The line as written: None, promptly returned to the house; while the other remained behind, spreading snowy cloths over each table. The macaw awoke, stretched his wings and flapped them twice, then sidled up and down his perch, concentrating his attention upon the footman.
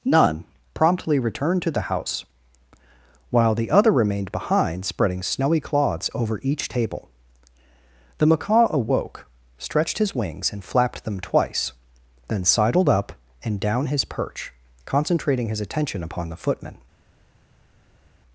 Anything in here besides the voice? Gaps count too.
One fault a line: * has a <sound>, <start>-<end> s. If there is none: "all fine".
all fine